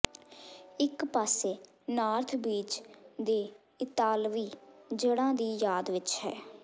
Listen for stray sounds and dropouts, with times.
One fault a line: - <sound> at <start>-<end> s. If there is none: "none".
none